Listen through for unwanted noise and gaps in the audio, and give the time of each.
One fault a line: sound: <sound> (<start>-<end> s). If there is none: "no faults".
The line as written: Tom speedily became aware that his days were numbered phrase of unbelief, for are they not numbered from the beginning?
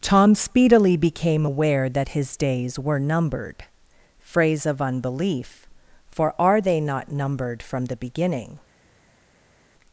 no faults